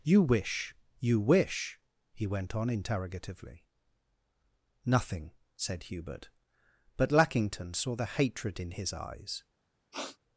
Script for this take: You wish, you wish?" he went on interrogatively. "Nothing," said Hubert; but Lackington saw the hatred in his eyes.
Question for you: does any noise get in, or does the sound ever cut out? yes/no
yes